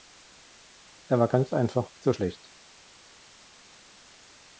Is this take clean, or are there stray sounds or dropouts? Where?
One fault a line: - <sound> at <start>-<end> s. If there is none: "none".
none